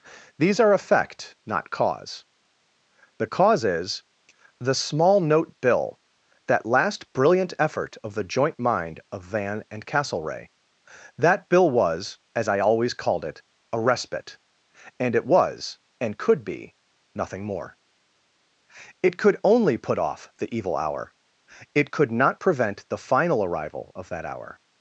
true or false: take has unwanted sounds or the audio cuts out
false